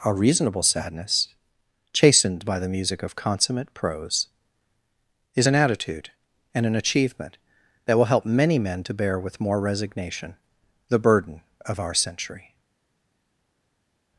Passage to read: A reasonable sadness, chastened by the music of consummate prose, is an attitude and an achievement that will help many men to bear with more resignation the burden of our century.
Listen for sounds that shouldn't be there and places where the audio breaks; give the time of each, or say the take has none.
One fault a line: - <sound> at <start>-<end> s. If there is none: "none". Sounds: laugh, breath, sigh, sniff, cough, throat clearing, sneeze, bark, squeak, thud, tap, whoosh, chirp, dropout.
none